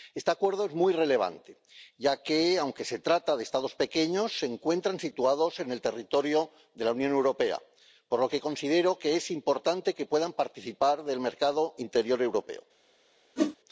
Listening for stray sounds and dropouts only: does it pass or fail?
fail